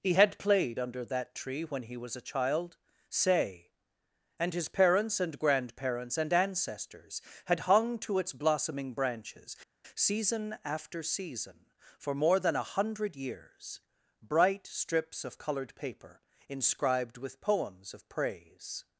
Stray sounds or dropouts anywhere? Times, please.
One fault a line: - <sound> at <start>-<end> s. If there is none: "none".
none